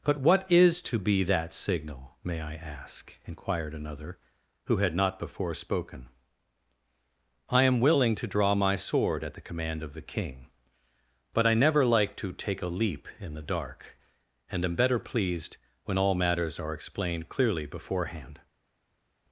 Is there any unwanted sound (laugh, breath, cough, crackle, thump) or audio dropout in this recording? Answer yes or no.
no